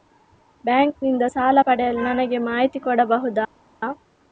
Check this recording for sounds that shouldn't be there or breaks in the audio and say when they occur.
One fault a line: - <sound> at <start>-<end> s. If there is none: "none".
none